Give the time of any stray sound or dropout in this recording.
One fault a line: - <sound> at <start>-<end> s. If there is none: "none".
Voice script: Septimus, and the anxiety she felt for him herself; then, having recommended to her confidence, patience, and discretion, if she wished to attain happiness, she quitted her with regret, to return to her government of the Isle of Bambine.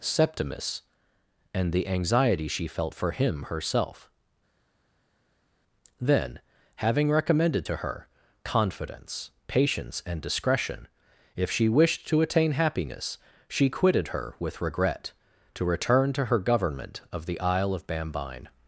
none